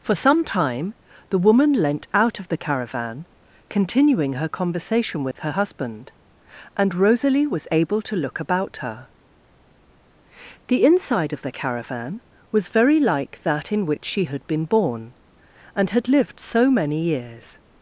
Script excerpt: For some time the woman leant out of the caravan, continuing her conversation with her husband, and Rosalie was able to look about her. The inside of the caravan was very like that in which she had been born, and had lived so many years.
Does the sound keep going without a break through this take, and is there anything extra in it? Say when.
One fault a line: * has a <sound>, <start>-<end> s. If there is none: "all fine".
* has a dropout, 5.3-5.4 s